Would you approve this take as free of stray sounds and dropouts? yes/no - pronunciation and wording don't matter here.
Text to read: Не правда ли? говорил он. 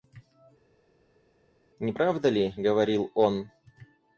yes